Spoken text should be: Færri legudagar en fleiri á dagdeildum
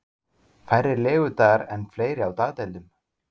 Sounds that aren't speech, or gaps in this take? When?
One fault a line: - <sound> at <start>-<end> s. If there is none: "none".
none